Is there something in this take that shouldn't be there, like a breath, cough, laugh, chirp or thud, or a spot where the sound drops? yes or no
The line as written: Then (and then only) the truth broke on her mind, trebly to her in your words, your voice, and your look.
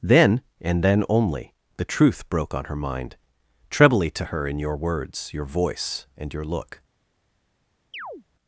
yes